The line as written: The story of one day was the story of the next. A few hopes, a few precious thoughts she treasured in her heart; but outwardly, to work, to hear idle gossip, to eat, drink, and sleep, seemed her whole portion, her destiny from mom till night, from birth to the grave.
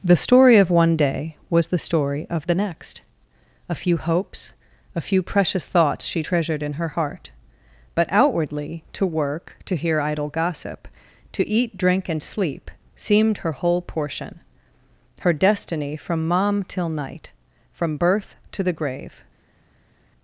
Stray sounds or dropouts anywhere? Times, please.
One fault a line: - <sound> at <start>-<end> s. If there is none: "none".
none